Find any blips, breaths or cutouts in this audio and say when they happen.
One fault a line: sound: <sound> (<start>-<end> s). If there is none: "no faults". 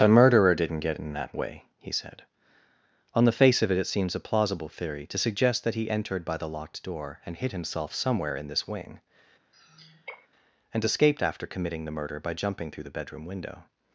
sound: sigh (9.5-10.3 s)